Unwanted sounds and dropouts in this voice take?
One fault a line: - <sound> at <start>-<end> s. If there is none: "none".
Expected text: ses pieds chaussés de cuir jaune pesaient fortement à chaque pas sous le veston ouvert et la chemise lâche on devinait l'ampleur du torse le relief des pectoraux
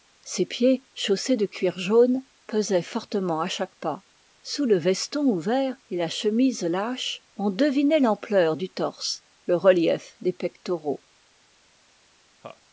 - laugh at 12.4-12.6 s